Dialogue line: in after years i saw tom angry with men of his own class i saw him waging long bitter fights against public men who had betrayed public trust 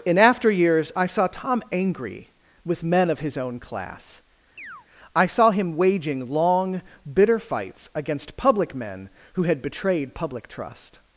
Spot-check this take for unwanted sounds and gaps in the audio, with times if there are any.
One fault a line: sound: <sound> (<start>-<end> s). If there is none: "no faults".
sound: chirp (4.6-4.9 s)